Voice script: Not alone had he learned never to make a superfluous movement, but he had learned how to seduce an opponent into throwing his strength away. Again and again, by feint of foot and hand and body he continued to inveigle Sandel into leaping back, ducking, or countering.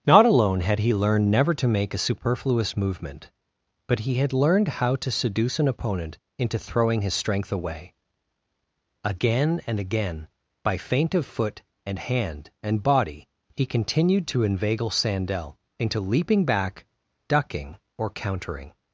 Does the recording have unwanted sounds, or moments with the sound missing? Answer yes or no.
no